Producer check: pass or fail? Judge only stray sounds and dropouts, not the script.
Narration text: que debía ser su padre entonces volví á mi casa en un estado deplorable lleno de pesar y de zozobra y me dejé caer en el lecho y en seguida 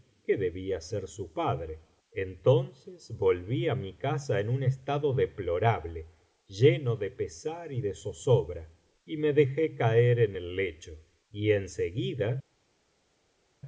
pass